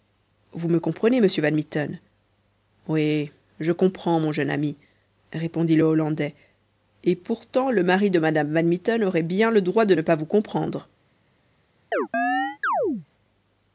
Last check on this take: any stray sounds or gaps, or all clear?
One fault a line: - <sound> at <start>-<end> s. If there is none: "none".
- chirp at 11.9-13.1 s